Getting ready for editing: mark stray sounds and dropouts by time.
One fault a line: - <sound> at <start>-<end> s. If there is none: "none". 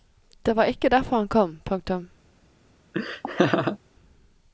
- laugh at 2.9-3.8 s